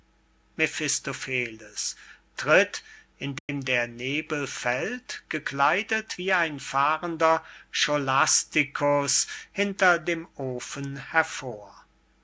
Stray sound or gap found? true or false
true